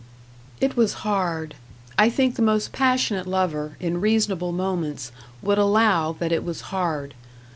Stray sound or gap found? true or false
false